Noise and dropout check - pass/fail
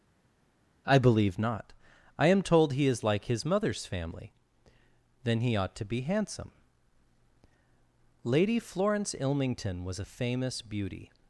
pass